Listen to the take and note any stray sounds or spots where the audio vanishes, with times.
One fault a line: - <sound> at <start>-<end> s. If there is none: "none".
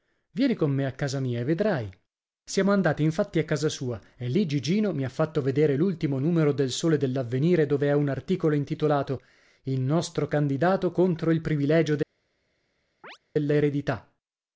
- chirp at 13.0-13.2 s